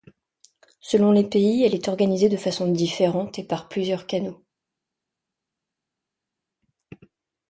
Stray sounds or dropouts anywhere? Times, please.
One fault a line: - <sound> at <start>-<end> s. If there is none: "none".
none